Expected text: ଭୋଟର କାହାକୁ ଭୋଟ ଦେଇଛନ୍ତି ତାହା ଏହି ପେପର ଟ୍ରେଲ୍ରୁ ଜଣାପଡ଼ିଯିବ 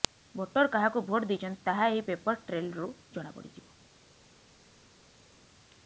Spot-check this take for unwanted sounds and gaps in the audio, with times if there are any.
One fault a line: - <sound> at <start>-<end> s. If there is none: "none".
none